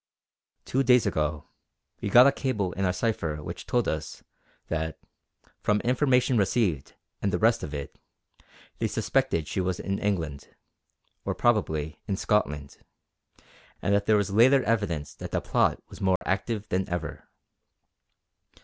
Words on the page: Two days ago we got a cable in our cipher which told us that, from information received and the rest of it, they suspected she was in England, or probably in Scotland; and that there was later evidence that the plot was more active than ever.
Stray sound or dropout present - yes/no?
yes